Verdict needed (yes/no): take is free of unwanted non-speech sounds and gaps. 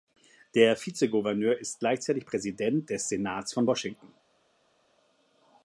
yes